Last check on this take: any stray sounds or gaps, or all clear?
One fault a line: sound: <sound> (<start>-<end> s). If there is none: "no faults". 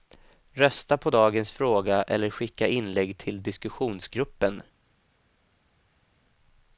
no faults